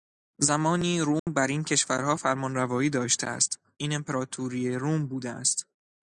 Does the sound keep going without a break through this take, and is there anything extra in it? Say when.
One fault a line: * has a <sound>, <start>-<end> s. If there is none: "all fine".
* has a dropout, 1.2-1.3 s